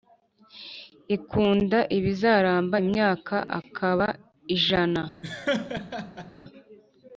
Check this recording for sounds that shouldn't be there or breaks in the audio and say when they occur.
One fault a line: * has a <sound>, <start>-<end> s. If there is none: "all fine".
* has a laugh, 5.2-6.3 s